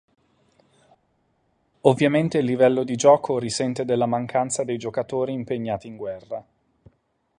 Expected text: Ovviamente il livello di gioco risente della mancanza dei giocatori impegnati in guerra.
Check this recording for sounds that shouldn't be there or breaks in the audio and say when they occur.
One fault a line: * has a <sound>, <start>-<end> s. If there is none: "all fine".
all fine